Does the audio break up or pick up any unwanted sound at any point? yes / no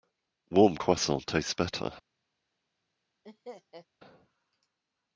yes